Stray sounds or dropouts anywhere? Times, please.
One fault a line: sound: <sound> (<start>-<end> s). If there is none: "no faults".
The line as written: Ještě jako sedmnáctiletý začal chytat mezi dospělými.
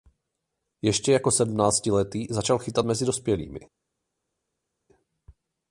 no faults